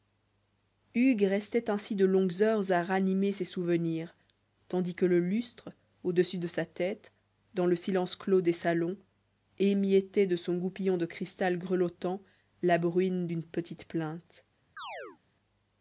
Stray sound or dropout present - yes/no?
yes